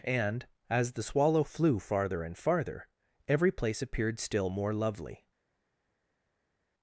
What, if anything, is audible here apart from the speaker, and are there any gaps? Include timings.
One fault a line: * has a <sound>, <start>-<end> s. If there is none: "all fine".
all fine